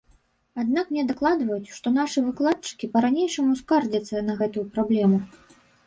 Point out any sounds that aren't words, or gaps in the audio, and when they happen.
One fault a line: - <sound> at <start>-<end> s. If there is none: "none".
none